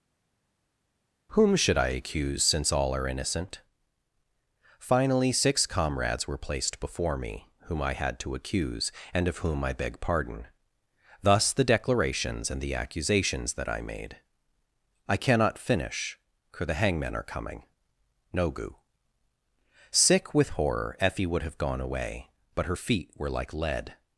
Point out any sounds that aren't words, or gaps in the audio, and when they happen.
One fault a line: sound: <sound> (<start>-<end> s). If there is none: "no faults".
no faults